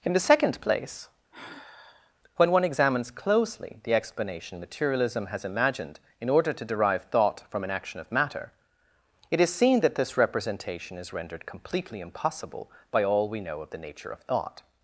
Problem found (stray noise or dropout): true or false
true